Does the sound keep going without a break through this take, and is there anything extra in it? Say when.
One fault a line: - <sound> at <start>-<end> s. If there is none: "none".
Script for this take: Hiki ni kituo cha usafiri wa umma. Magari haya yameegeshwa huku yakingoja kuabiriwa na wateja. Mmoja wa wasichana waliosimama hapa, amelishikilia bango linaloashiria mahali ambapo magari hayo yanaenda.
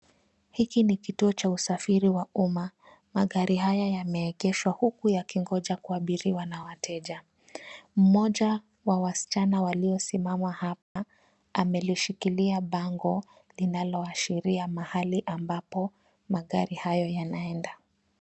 - dropout at 10.8-11.0 s